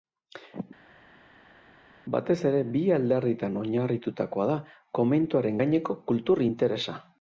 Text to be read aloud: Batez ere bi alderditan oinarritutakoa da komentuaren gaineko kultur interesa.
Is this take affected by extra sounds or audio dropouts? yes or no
no